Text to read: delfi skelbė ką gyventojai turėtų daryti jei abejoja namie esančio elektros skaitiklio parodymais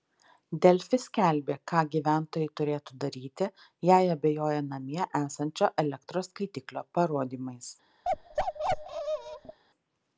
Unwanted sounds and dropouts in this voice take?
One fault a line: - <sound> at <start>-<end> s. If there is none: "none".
- bark at 8.0-9.6 s